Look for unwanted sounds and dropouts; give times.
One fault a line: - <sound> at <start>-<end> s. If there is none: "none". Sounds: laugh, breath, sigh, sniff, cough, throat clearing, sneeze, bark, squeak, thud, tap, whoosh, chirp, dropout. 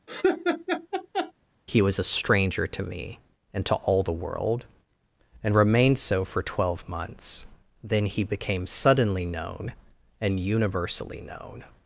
- laugh at 0.1-1.3 s